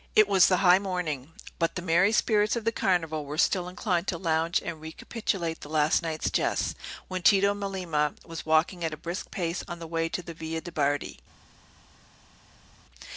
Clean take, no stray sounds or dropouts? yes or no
yes